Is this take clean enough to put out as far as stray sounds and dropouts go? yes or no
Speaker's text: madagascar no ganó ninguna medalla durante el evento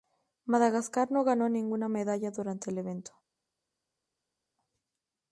yes